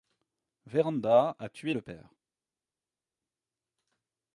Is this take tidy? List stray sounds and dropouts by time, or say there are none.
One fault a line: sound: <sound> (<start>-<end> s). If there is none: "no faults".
no faults